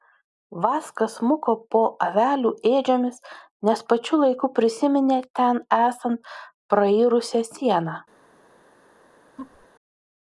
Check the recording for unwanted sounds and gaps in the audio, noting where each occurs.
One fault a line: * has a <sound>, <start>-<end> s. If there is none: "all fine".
* has a laugh, 9.4-9.7 s